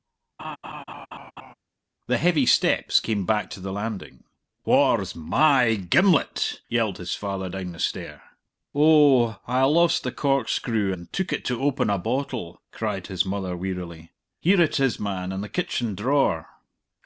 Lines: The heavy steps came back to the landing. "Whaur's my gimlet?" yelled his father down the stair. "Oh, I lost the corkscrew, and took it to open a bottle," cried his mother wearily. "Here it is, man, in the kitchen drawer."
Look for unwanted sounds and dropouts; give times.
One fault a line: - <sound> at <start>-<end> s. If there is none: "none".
- laugh at 0.4-1.5 s